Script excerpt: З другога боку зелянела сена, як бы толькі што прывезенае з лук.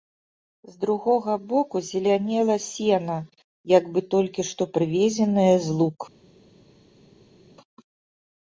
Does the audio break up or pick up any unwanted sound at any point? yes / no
no